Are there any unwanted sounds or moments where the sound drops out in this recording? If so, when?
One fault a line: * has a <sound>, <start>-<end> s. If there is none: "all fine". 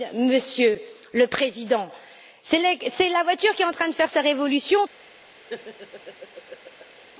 * has a laugh, 5.5-7.0 s